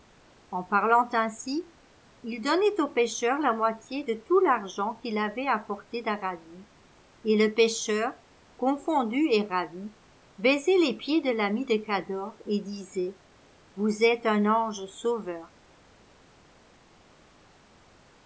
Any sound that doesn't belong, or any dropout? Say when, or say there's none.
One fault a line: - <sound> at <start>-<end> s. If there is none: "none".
none